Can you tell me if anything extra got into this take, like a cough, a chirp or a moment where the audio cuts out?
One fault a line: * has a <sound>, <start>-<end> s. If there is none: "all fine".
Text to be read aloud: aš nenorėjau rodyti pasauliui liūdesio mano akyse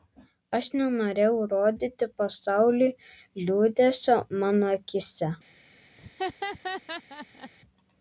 * has a laugh, 6.0-7.5 s